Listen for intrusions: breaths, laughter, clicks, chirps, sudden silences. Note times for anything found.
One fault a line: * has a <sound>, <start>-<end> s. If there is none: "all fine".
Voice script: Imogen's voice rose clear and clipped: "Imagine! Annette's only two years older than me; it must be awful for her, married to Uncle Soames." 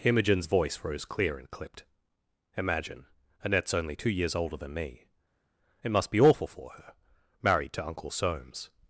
all fine